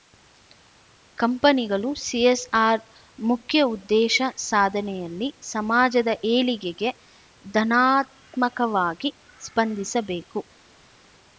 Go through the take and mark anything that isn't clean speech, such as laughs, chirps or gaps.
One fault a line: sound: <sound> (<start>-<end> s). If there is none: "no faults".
no faults